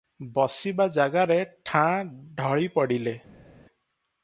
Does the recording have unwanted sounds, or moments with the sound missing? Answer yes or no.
no